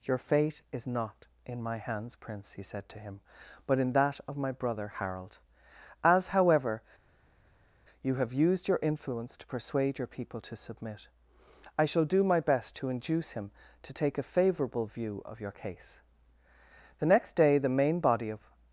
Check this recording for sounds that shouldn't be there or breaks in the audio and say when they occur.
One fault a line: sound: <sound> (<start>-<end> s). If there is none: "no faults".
no faults